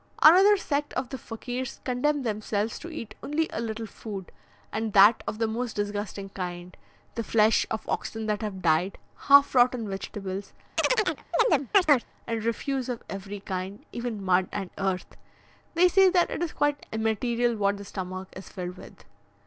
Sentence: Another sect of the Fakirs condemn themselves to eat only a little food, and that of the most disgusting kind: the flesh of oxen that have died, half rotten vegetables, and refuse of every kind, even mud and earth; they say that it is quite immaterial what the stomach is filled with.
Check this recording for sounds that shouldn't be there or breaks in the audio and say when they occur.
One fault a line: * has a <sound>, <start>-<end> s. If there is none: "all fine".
* has a chirp, 10.8-12.1 s